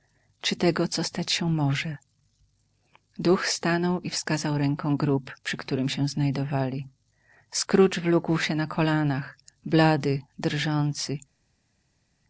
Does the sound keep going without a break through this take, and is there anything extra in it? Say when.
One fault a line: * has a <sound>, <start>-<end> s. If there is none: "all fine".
all fine